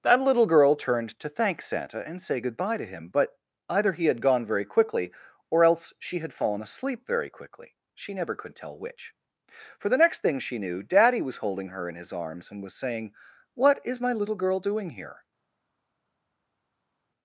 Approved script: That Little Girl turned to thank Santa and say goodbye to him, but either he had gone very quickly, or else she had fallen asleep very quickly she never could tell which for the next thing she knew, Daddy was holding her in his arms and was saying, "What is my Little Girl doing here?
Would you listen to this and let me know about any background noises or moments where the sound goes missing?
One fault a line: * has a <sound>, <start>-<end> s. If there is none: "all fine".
all fine